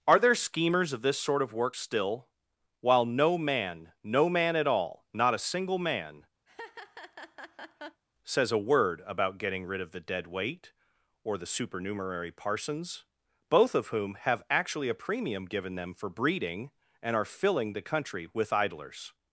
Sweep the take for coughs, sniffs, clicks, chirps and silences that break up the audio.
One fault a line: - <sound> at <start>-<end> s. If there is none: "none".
- laugh at 6.5-8.0 s